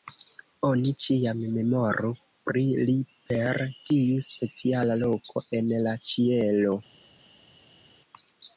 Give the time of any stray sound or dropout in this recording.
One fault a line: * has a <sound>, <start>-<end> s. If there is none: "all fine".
all fine